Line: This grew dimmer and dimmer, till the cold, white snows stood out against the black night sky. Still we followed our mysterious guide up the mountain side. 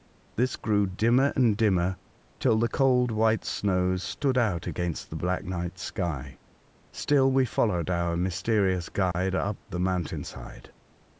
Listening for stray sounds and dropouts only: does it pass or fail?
fail